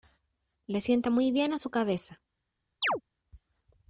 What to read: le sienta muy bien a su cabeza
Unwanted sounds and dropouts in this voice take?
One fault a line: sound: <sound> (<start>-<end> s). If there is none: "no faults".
sound: chirp (2.8-3.0 s)